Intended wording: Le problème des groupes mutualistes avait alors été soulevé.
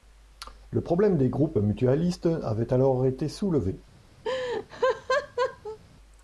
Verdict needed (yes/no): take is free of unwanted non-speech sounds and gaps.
no